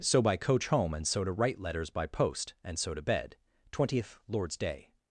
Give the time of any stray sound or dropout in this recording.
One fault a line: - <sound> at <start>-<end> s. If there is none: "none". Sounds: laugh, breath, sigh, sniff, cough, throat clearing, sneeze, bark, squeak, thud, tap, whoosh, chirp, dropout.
none